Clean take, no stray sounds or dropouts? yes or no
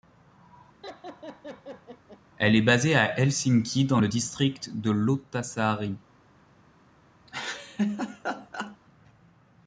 no